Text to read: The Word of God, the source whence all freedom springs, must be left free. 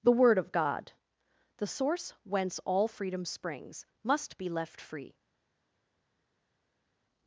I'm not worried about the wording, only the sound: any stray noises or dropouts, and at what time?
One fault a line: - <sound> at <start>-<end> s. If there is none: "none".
none